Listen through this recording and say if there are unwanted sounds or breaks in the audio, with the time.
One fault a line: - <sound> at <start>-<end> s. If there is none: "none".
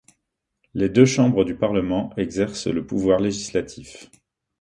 none